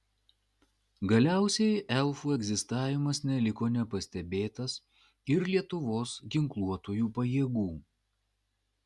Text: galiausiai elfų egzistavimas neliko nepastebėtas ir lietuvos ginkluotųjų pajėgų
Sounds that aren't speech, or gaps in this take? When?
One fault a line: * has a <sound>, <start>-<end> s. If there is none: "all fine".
all fine